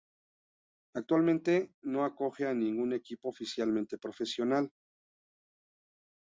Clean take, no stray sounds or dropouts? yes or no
yes